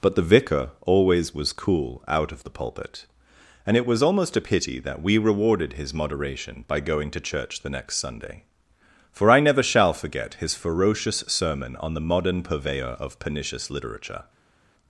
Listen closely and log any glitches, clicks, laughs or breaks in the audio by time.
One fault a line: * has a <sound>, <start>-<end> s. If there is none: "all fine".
all fine